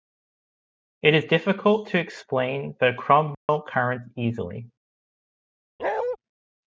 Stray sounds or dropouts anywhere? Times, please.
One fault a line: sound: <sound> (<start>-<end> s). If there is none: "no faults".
sound: dropout (3.3-3.5 s)
sound: bark (5.8-6.2 s)